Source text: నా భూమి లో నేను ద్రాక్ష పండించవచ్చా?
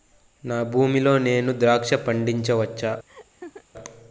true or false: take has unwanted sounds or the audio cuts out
true